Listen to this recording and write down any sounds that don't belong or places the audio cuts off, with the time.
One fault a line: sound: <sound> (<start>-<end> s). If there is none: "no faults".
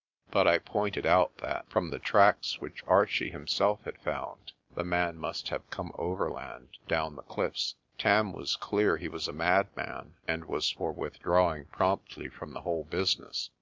no faults